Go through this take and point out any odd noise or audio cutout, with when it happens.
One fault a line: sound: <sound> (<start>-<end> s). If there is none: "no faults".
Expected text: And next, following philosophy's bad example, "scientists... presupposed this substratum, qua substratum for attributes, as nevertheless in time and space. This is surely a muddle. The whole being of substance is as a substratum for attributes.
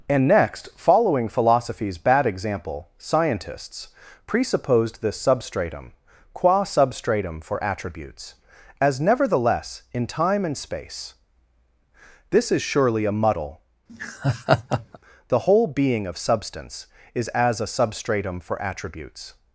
sound: laugh (13.9-15.0 s)